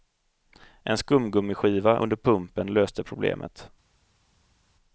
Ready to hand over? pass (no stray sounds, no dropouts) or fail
pass